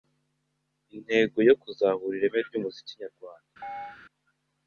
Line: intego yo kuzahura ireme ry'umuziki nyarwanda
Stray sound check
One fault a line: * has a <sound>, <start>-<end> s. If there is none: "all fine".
* has a chirp, 3.6-4.0 s